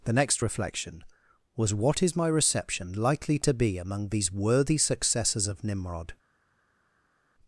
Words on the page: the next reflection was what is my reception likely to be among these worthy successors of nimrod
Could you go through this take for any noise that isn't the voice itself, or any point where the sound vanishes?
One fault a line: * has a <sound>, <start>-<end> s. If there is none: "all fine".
all fine